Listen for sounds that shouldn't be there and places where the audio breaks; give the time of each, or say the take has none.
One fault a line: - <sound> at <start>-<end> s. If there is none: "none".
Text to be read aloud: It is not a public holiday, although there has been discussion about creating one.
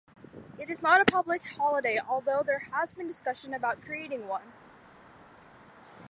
none